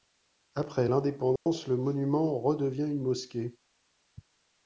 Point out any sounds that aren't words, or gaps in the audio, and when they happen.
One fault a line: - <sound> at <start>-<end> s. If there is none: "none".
- dropout at 1.4-1.5 s